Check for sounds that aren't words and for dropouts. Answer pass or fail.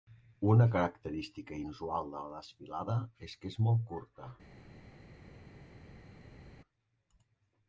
pass